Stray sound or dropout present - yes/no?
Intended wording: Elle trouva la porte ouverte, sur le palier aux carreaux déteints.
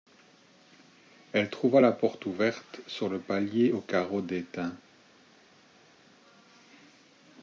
no